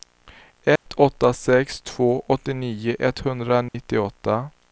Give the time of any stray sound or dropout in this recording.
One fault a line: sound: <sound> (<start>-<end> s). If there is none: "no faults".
sound: dropout (0.8-0.9 s)
sound: dropout (3.7-3.7 s)